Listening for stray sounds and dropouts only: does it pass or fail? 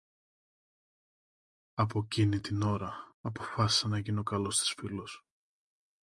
pass